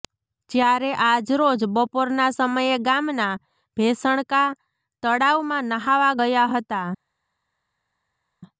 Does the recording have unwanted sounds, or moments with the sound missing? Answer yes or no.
no